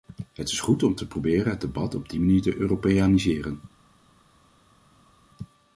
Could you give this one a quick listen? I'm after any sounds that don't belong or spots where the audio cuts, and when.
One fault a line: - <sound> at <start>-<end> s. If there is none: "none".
none